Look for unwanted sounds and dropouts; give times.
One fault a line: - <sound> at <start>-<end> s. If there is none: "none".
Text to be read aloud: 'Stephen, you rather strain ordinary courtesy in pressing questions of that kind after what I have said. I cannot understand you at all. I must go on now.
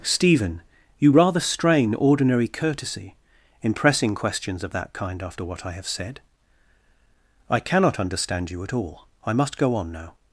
none